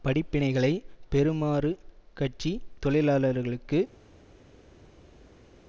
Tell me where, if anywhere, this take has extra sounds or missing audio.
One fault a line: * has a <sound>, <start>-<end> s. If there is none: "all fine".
all fine